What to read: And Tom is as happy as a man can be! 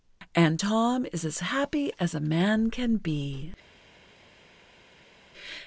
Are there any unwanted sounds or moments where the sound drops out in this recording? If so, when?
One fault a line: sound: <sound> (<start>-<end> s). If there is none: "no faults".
no faults